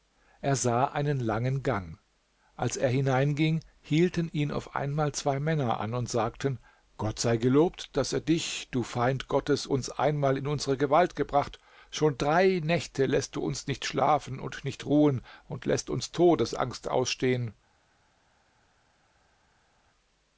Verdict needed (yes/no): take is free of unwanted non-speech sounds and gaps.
yes